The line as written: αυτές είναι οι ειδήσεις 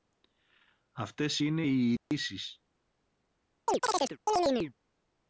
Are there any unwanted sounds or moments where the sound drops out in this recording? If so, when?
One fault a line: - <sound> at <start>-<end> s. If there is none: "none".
- dropout at 2.0-2.1 s
- chirp at 3.7-4.7 s